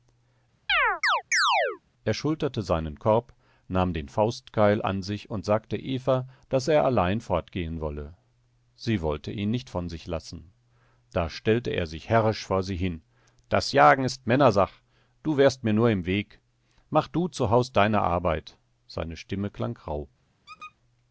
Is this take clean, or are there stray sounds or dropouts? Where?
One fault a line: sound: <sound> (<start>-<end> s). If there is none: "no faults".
sound: chirp (0.7-1.8 s)
sound: squeak (20.5-20.8 s)